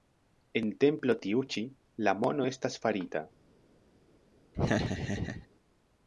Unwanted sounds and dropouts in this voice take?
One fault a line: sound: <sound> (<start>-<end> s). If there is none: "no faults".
sound: laugh (4.5-5.5 s)